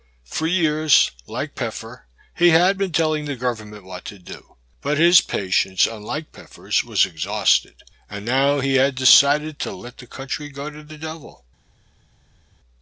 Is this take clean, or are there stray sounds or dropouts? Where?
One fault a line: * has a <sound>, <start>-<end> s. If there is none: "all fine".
all fine